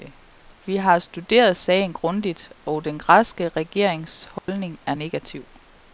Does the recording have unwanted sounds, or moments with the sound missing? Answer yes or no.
yes